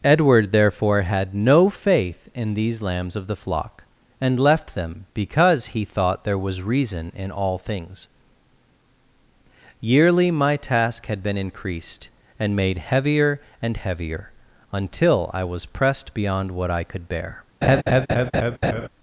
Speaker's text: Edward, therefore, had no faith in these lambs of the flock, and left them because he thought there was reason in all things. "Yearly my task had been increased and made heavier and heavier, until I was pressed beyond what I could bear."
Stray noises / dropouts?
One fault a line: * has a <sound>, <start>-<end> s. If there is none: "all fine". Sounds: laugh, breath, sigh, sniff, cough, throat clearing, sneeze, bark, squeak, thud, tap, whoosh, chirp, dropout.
* has a laugh, 17.6-18.9 s